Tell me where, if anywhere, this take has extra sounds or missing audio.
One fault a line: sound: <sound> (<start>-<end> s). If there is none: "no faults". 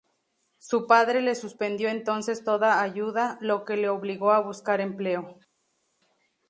no faults